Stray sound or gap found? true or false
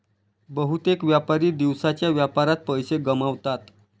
false